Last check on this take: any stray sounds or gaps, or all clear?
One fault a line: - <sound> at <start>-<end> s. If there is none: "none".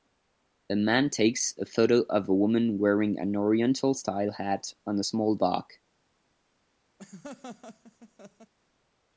- laugh at 7.0-8.5 s